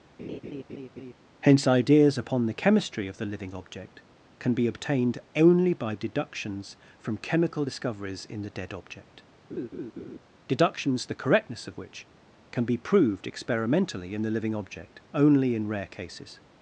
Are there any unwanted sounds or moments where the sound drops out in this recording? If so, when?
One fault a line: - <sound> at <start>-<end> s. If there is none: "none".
- laugh at 0.2-1.1 s
- laugh at 9.5-10.2 s